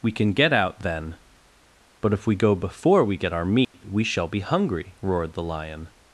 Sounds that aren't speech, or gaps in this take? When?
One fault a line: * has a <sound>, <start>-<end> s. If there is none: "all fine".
* has a dropout, 3.6-3.7 s